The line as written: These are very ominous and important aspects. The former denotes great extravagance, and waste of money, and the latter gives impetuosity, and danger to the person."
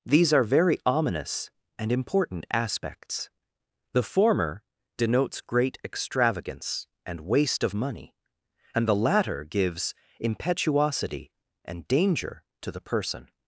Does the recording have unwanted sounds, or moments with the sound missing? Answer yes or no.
no